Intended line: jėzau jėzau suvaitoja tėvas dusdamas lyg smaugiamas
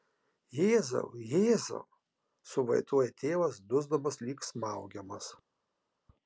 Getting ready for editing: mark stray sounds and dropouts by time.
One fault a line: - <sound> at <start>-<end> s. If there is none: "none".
none